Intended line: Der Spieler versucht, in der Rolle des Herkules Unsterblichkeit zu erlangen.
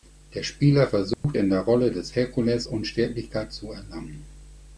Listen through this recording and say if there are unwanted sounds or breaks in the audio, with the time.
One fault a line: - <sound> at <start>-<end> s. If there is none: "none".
- dropout at 1.1-1.2 s